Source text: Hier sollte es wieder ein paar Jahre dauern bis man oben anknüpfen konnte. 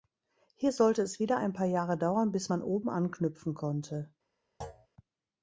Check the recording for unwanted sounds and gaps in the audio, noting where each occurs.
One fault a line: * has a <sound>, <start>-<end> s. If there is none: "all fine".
* has a thud, 4.6-4.9 s